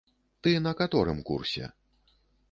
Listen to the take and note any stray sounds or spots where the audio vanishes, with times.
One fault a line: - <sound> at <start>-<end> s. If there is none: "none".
none